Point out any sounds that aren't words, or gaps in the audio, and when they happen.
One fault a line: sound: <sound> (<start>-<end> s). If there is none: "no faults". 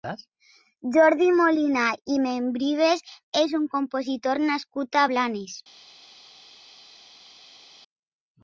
no faults